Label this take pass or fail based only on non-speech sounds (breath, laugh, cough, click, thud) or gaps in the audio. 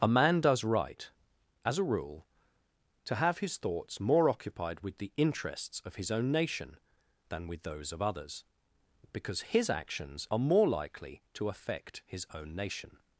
pass